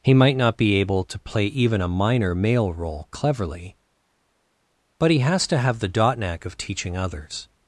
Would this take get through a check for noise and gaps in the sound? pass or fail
pass